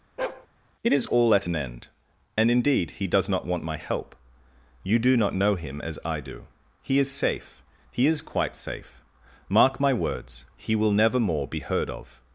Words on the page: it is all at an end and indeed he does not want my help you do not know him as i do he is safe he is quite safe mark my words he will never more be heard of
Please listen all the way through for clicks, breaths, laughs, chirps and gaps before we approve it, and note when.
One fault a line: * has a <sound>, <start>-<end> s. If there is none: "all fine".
* has a bark, 0.2-0.5 s